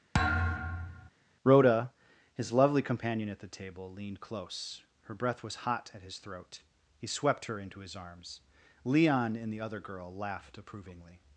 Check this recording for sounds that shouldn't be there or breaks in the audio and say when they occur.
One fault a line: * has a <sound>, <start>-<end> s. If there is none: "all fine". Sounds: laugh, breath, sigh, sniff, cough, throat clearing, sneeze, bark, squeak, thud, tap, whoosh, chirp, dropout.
* has a thud, 0.1-1.1 s